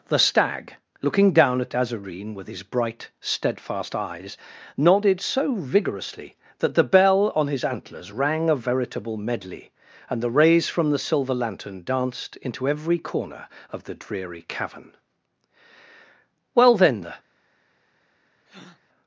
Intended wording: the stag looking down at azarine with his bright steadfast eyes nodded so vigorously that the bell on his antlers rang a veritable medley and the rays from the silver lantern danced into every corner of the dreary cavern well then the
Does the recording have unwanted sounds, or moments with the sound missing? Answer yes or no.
yes